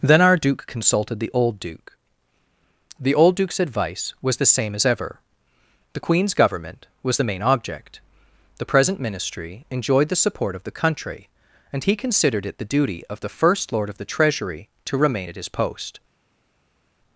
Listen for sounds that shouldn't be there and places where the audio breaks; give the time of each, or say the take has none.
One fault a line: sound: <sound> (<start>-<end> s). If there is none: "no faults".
no faults